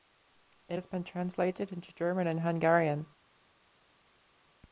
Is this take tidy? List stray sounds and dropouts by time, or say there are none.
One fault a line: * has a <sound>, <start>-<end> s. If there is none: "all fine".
all fine